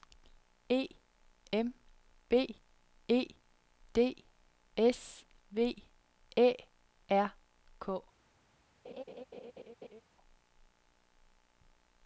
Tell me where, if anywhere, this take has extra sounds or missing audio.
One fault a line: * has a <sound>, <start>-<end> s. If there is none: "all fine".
* has a laugh, 8.8-10.0 s